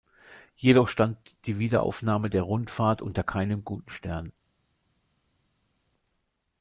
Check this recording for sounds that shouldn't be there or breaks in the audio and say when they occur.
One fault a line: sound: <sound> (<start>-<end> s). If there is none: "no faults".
no faults